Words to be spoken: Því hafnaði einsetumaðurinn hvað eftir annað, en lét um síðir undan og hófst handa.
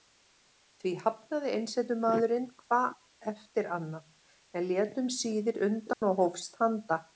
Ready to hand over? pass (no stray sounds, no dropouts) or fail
fail